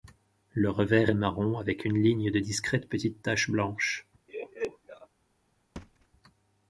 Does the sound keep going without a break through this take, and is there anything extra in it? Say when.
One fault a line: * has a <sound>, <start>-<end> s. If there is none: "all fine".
* has a laugh, 4.3-5.1 s
* has a thud, 5.8-6.1 s